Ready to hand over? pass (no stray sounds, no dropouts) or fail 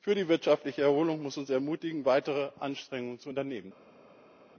pass